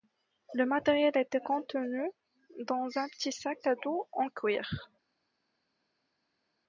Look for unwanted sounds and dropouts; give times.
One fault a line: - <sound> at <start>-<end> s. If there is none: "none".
none